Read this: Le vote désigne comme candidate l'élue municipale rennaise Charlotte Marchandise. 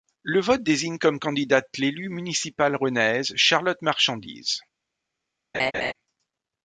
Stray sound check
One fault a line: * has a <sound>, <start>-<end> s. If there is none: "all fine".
* has a laugh, 5.5-5.9 s